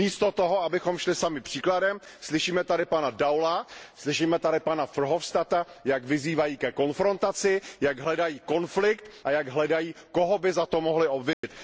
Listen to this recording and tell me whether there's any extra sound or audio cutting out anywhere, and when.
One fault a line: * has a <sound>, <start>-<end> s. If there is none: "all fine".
* has a dropout, 11.3-11.4 s